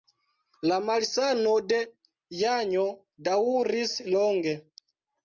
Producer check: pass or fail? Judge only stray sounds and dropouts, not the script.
pass